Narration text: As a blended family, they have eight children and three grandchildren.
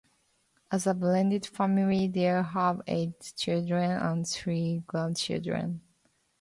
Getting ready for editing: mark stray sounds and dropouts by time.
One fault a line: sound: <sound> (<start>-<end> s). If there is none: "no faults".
no faults